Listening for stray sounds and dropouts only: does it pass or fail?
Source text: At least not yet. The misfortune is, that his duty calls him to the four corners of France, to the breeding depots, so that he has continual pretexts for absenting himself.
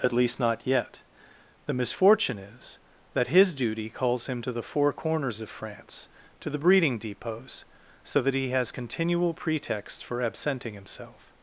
pass